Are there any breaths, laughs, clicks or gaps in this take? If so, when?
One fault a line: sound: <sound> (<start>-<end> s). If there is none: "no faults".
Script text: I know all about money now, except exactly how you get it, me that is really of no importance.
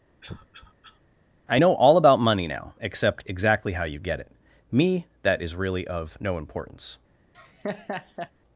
sound: cough (0.2-1.0 s)
sound: laugh (7.3-8.3 s)